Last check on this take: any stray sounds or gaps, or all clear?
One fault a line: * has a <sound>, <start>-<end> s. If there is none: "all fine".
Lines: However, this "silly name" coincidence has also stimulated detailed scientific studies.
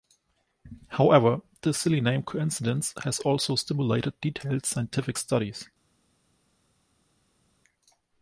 all fine